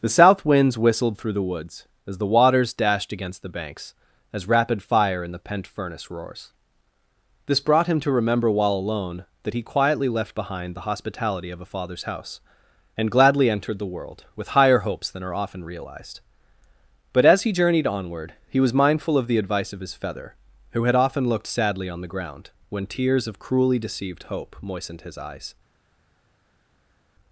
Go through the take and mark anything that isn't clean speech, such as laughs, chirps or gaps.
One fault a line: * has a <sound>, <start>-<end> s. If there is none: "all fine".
all fine